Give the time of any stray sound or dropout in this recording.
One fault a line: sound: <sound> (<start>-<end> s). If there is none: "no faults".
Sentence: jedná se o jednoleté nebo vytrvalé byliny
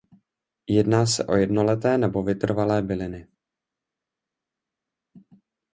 no faults